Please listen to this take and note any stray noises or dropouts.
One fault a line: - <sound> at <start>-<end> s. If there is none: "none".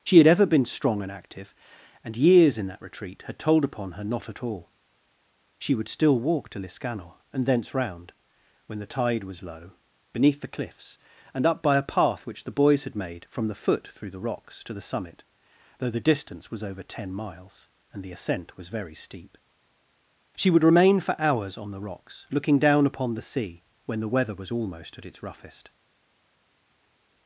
none